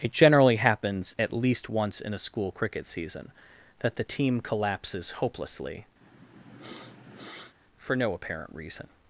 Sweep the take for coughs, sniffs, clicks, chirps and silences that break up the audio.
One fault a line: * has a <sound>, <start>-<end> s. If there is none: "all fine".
* has a sniff, 6.0-7.5 s